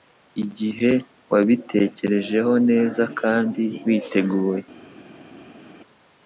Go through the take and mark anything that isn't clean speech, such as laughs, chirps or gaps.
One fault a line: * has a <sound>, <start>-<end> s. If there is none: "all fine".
all fine